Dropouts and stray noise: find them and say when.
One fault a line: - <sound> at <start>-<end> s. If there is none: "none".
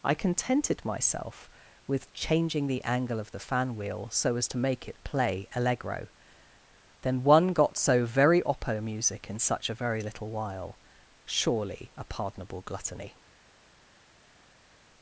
none